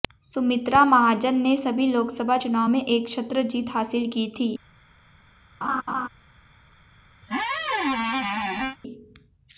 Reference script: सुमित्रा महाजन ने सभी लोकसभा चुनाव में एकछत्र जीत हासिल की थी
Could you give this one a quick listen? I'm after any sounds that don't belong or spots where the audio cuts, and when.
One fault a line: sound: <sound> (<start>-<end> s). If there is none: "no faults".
sound: laugh (5.6-6.1 s)
sound: squeak (7.2-8.8 s)